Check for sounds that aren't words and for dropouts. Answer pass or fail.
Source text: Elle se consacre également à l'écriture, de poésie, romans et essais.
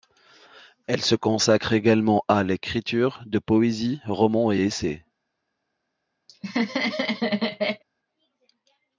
fail